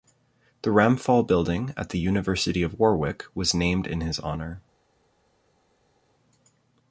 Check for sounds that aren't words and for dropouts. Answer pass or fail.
pass